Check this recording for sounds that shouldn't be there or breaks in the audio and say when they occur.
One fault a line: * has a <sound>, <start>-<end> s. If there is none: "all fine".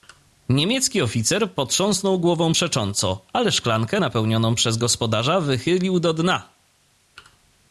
all fine